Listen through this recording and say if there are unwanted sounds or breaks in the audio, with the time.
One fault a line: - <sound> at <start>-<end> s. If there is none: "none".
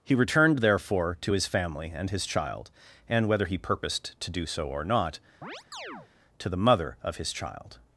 - chirp at 5.4-6.1 s